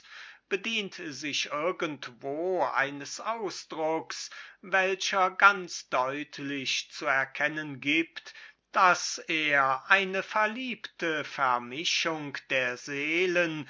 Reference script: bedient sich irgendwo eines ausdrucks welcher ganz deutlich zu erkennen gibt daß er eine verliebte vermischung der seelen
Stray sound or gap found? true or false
false